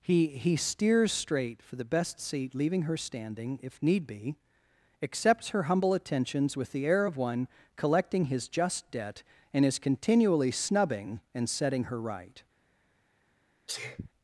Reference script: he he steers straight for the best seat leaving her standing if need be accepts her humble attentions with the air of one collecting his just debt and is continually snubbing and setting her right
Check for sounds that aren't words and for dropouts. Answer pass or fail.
fail